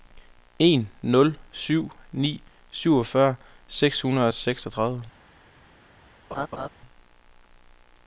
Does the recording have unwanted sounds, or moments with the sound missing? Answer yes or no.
yes